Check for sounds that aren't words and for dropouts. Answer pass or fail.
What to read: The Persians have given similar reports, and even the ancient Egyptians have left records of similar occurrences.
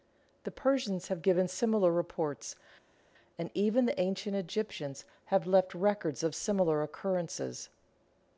pass